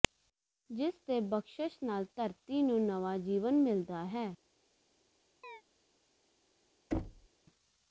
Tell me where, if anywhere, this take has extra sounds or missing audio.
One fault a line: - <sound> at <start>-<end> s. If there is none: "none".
- chirp at 5.4-5.6 s
- thud at 6.9-7.3 s